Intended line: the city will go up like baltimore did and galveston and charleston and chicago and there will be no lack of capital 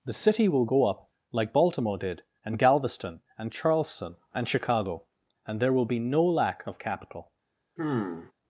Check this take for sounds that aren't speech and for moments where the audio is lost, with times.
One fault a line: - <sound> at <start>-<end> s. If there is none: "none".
- sigh at 7.8-8.3 s